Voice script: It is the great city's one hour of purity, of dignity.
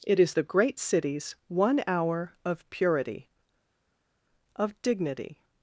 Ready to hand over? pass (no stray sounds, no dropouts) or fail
pass